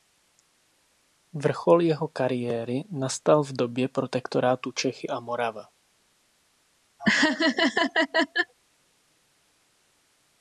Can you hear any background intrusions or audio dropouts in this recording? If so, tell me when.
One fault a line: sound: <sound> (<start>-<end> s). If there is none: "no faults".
sound: laugh (7.0-8.5 s)